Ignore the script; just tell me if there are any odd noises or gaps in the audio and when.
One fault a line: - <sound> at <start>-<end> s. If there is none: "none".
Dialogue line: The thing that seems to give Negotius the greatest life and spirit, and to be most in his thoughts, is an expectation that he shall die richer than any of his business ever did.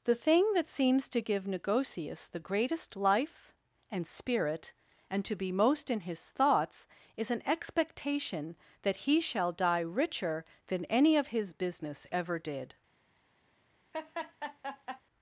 - laugh at 13.9-15.0 s